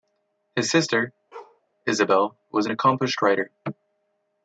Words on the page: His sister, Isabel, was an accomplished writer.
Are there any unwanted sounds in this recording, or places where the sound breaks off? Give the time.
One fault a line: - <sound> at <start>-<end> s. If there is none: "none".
- bark at 1.3-1.6 s